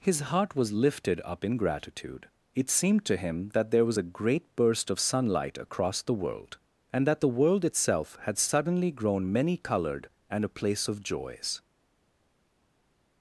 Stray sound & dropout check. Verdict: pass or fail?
pass